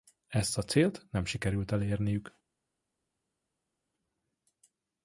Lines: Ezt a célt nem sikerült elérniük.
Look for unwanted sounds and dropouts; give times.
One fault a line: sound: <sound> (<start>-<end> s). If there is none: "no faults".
no faults